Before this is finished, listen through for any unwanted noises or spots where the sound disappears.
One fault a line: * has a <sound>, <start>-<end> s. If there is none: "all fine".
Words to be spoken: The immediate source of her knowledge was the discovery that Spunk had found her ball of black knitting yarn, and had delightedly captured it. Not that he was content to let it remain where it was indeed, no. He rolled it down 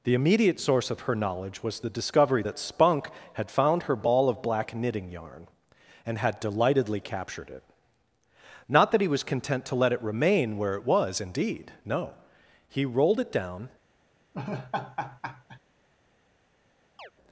* has a laugh, 14.3-15.6 s
* has a chirp, 17.0-17.1 s